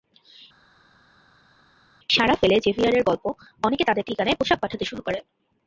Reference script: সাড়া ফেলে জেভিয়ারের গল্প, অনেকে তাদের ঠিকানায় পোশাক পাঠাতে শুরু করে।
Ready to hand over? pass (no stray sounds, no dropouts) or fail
pass